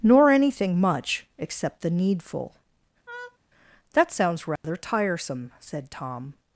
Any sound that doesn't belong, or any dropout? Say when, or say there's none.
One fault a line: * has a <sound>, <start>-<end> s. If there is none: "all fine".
* has a laugh, 3.1-3.4 s
* has a dropout, 4.6-4.6 s